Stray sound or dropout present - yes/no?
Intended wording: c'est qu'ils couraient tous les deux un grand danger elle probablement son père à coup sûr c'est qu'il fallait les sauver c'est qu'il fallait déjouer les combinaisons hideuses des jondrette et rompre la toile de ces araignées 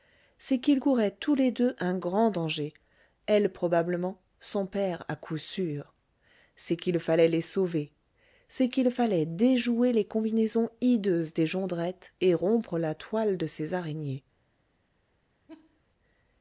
yes